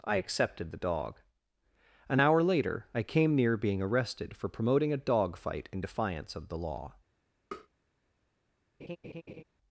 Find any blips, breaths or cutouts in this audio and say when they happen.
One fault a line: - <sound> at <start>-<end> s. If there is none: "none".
- tap at 7.5-7.7 s
- laugh at 8.8-9.4 s